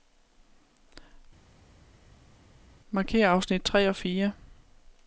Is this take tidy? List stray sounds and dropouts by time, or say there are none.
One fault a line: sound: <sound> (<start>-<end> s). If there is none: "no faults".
no faults